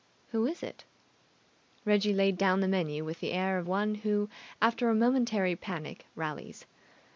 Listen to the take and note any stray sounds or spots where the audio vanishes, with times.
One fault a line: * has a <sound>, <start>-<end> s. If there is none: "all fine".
all fine